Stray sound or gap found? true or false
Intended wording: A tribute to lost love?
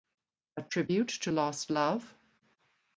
false